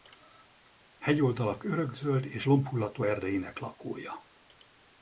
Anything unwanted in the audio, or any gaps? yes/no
no